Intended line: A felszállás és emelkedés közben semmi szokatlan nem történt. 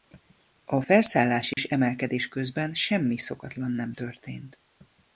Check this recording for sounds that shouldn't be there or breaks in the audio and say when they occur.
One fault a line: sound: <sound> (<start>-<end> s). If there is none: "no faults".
sound: dropout (1.5-1.6 s)